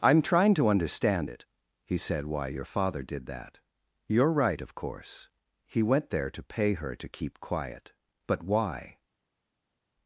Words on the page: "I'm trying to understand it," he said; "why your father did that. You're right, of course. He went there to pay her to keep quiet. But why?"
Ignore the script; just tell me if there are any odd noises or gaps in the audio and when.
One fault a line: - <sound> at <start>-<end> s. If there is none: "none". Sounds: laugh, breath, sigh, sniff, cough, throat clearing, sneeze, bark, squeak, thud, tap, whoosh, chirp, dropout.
none